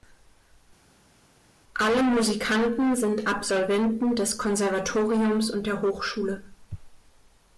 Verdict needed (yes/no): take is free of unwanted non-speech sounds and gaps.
yes